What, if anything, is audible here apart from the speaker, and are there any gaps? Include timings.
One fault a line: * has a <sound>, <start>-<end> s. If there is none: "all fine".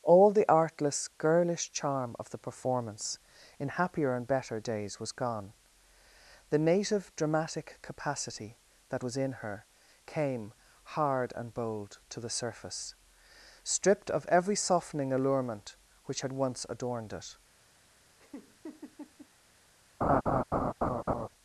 * has a laugh, 18.2-19.3 s
* has a laugh, 20.0-21.3 s